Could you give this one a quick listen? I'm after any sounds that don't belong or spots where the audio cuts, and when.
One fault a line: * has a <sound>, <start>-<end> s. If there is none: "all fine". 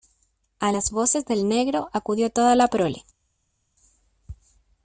all fine